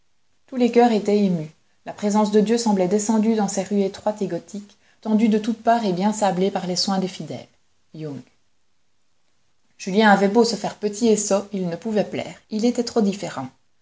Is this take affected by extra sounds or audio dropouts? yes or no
no